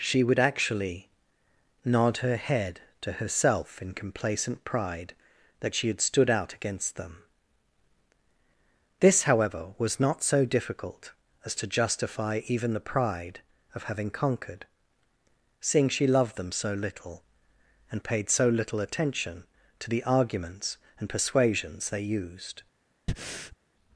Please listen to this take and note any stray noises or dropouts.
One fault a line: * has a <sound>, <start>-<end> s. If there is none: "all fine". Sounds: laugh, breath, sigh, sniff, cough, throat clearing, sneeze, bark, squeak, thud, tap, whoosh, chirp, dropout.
* has a breath, 23.1-23.6 s